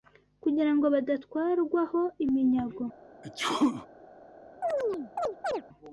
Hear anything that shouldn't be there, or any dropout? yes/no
yes